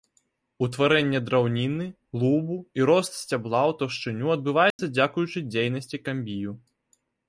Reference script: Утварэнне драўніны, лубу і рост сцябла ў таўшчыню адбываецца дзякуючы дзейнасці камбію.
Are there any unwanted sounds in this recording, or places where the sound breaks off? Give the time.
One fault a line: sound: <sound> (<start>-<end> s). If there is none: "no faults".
sound: dropout (4.7-4.8 s)